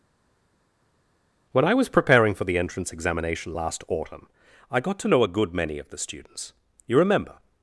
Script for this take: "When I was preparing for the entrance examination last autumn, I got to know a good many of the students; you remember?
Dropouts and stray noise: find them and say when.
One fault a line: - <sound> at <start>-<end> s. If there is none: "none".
none